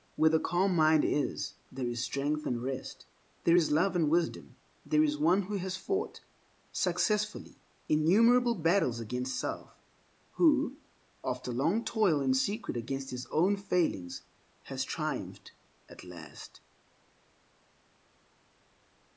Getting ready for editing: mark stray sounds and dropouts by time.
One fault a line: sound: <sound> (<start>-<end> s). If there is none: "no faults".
no faults